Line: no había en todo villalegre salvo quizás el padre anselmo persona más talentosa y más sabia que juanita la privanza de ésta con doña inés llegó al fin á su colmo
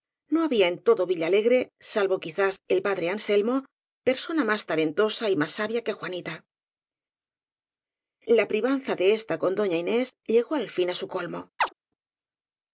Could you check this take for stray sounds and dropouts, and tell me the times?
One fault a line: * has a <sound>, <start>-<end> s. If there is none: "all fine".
* has a chirp, 11.6-11.7 s